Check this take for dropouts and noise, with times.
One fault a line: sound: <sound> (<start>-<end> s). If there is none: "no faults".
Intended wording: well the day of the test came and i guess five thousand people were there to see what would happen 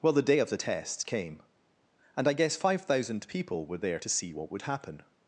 no faults